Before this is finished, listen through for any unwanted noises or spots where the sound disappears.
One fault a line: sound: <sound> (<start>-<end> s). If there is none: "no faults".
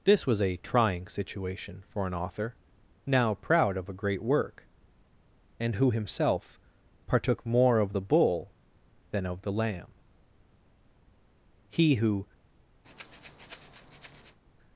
sound: breath (12.8-14.4 s)